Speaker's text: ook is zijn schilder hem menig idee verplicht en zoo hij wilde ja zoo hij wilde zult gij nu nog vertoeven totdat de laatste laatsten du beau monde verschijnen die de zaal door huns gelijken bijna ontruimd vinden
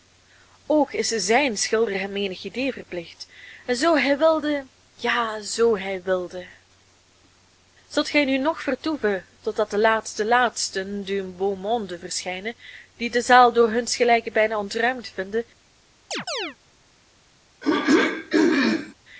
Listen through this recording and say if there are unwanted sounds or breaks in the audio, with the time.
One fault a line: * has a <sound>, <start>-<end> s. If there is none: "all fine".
* has a chirp, 16.1-16.6 s
* has a throat clearing, 17.6-18.9 s